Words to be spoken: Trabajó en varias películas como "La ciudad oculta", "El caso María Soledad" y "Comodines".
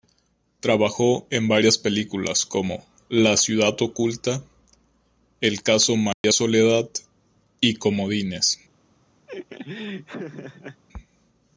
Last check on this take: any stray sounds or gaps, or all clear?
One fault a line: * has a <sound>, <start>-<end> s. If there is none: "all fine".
* has a dropout, 6.1-6.2 s
* has a laugh, 9.3-10.8 s